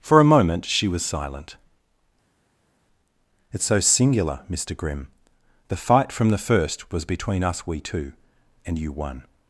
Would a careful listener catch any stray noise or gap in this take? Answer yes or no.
no